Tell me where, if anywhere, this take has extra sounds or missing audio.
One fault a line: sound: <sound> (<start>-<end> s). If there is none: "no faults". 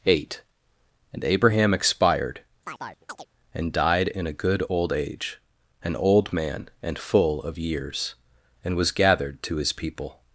sound: chirp (2.6-3.3 s)